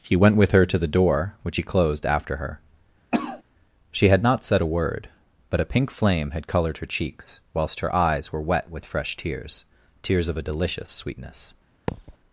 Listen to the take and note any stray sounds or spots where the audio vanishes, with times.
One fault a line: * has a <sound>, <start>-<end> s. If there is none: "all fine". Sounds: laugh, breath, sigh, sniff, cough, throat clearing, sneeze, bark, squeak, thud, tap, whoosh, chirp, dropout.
* has a cough, 3.1-3.4 s
* has a thud, 11.9-12.2 s